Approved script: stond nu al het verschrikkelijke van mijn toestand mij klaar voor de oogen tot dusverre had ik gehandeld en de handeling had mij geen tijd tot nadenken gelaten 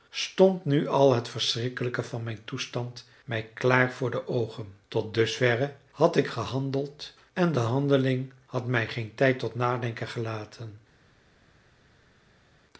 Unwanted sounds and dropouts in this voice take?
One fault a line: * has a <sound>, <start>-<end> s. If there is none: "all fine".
all fine